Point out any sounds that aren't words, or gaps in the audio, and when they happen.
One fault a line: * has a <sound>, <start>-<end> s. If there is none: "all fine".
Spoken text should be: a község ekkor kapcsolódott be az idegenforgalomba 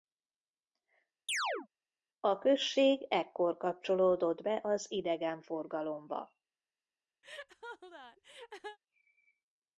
* has a chirp, 1.3-1.7 s
* has a laugh, 7.2-8.8 s